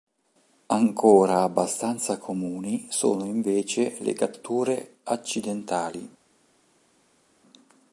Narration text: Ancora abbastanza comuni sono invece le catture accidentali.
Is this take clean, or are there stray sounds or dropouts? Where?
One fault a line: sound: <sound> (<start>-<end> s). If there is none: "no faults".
no faults